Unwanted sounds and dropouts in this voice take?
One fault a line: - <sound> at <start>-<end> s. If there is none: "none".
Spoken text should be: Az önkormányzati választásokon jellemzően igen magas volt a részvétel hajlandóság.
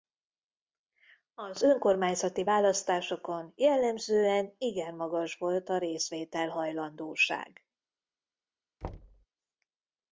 - thud at 8.8-9.3 s